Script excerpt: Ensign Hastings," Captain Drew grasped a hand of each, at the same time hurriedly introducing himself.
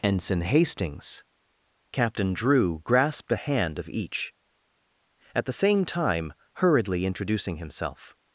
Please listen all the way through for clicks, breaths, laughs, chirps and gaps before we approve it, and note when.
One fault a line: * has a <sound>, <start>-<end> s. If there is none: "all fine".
all fine